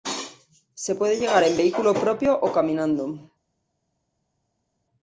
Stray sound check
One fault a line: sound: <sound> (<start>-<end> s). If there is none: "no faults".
no faults